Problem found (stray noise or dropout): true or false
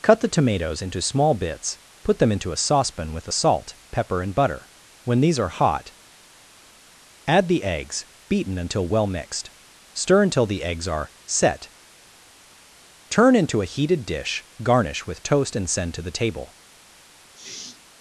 true